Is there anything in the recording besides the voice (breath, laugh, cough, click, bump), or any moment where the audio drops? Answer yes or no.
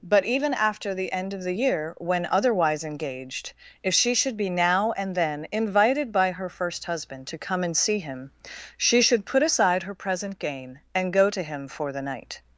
no